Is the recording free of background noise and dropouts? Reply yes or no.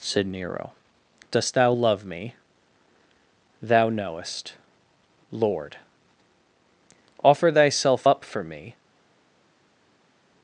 yes